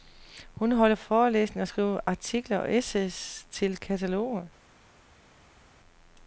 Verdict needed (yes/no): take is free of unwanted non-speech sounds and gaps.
yes